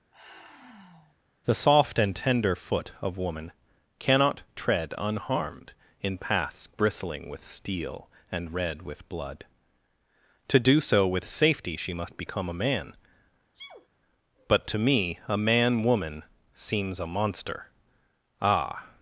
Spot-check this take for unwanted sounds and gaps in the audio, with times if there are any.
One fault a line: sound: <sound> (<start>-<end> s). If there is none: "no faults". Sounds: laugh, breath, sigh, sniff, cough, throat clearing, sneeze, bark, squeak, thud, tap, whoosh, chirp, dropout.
sound: sigh (0.1-1.2 s)
sound: sneeze (13.5-13.9 s)